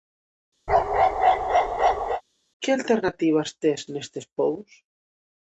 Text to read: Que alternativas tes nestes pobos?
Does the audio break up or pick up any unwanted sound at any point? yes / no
yes